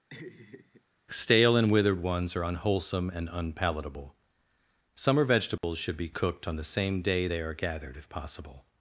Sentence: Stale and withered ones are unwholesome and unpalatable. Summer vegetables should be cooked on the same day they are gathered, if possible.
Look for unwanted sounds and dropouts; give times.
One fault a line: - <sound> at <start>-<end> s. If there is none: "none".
- laugh at 0.1-0.8 s
- dropout at 5.6-5.6 s